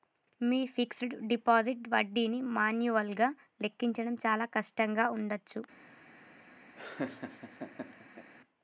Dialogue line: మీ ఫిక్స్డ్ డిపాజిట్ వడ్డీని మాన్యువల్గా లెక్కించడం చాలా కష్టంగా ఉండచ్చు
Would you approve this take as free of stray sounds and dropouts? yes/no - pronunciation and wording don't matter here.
no